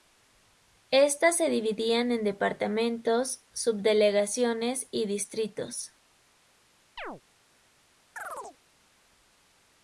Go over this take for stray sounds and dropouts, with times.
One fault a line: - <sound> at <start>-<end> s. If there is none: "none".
- chirp at 7.0-7.2 s
- chirp at 8.2-8.6 s